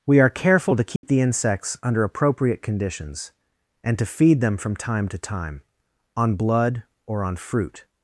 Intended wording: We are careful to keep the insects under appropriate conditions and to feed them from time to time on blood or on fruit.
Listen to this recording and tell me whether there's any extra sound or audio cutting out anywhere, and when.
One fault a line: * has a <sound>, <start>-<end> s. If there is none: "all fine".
* has a dropout, 1.0-1.0 s